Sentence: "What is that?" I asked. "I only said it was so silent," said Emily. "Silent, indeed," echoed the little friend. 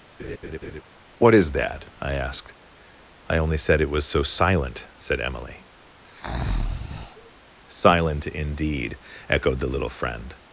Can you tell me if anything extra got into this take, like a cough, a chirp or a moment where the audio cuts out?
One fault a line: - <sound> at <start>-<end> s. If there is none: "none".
- laugh at 0.2-0.8 s
- breath at 6.0-7.3 s